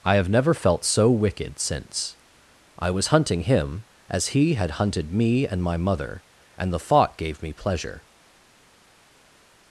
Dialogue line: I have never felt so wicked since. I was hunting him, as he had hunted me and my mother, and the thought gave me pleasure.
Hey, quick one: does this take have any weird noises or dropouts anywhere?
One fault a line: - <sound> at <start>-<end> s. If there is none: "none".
none